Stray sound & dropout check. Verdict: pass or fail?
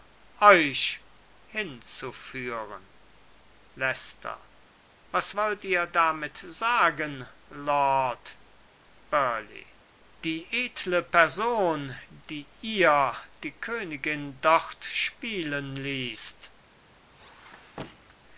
fail